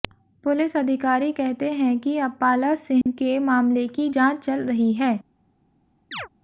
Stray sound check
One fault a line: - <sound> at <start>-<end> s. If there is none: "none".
- dropout at 3.0-3.1 s
- chirp at 6.1-6.3 s